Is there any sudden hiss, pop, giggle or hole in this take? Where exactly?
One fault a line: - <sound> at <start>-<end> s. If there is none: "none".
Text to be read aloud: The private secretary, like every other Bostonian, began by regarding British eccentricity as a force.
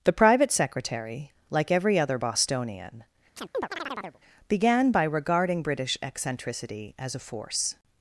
- chirp at 3.4-4.2 s